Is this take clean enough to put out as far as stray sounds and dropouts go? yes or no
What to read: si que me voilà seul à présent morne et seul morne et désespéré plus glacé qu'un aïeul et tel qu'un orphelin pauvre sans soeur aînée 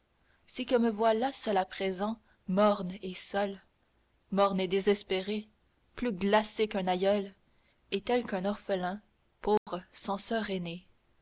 no